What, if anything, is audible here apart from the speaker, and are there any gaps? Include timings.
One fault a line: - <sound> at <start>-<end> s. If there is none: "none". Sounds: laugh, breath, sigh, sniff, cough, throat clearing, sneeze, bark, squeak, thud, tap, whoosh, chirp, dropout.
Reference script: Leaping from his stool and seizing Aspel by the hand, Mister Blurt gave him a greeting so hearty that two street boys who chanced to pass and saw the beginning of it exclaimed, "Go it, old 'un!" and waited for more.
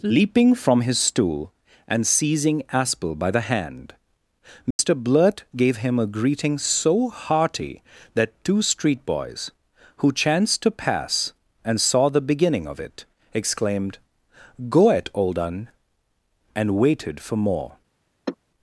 - dropout at 4.7-4.8 s
- sigh at 18.3-18.4 s